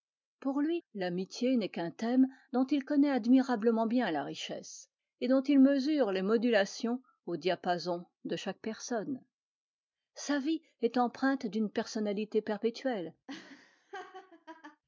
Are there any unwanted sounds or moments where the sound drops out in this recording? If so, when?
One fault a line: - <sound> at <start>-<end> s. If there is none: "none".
- laugh at 13.3-14.8 s